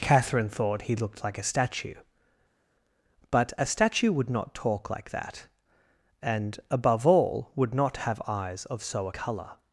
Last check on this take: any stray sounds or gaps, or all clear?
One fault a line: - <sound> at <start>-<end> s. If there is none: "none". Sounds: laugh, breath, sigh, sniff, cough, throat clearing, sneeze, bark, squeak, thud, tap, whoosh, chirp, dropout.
none